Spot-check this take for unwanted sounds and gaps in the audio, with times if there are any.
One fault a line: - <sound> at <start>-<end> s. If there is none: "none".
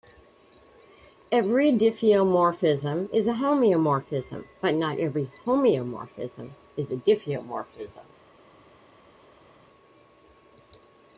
none